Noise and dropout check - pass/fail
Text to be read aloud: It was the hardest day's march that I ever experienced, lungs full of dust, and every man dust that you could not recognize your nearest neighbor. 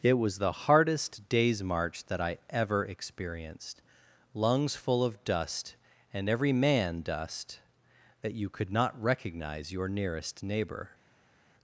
pass